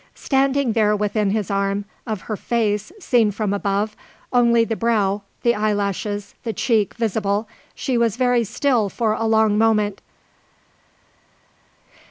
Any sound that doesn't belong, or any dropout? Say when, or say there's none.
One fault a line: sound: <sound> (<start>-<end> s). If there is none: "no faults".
no faults